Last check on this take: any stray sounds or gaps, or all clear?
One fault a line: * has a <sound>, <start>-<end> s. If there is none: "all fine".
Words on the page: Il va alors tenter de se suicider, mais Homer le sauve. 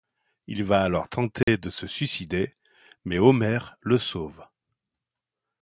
* has a dropout, 1.4-1.5 s